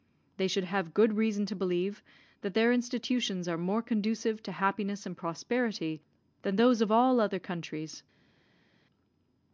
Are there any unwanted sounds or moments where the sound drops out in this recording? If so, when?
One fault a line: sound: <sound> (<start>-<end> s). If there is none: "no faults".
no faults